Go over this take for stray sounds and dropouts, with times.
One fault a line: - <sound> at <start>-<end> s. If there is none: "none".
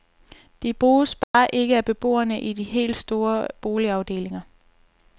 - dropout at 1.2-1.3 s